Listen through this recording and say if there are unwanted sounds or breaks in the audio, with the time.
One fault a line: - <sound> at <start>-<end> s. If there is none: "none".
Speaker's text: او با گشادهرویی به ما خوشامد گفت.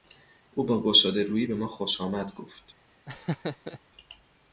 - laugh at 3.1-3.8 s